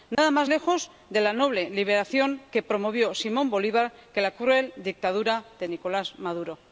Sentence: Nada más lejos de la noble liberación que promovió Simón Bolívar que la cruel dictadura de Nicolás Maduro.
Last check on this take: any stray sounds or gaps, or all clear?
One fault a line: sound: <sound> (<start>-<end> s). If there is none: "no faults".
sound: dropout (0.1-0.2 s)